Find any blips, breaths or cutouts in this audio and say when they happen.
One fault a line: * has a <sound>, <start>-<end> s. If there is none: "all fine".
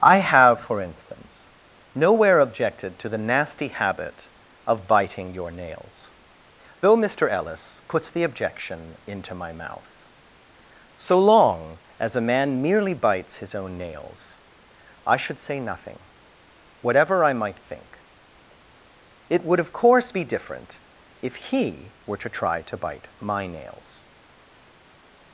all fine